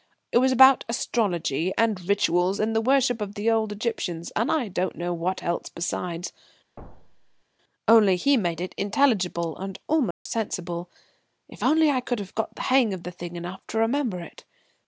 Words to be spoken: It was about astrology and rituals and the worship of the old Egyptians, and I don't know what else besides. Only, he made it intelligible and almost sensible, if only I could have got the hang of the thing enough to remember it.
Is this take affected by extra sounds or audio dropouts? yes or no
yes